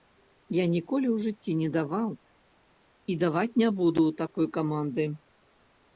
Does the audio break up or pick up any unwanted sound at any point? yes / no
no